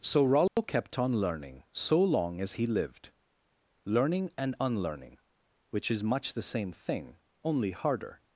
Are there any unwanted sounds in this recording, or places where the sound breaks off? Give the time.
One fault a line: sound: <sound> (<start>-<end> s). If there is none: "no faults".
sound: dropout (0.5-0.6 s)